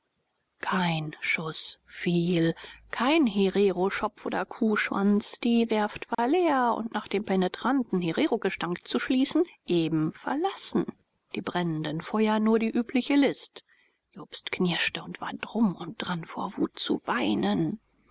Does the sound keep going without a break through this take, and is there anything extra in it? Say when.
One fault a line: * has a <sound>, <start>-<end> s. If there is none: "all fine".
* has a dropout, 6.1-6.2 s